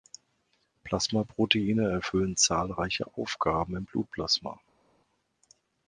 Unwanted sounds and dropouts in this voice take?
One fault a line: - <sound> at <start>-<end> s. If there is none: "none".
none